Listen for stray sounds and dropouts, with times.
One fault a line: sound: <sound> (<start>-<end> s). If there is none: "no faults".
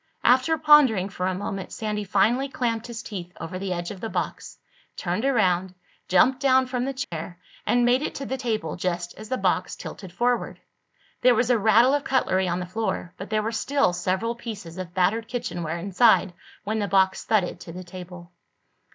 sound: dropout (7.0-7.1 s)